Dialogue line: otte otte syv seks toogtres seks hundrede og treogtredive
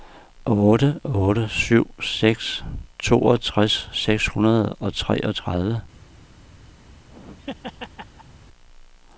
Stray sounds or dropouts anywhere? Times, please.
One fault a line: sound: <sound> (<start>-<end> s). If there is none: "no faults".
sound: laugh (6.8-8.4 s)